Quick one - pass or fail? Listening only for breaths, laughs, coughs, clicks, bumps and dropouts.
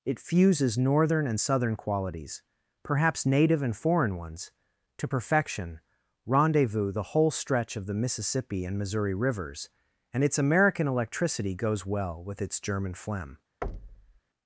fail